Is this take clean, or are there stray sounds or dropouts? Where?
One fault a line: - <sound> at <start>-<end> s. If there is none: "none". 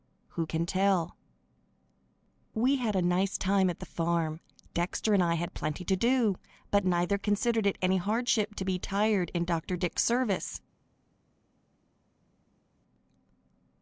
none